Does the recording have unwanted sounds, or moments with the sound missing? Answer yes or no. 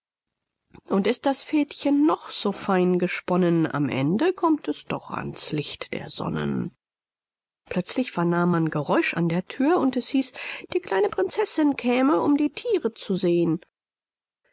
no